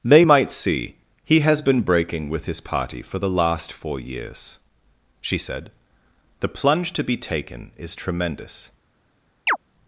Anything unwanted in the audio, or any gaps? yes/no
yes